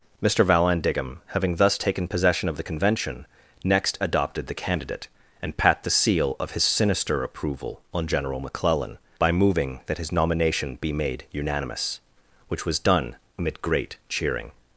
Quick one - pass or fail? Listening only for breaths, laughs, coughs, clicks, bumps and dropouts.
pass